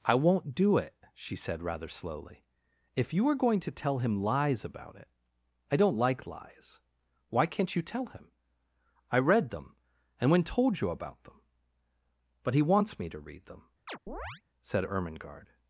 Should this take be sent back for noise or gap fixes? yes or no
yes